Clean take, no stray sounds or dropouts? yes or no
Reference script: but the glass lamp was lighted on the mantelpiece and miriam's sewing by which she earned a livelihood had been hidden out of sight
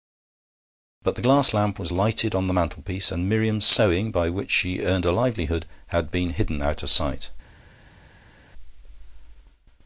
yes